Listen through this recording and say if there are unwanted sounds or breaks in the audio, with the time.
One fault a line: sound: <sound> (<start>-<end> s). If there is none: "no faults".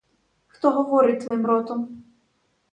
sound: dropout (1.3-1.3 s)